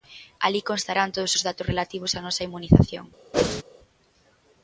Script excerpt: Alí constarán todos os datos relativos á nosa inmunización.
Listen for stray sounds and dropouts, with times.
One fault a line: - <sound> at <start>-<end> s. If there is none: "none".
- whoosh at 3.3-3.6 s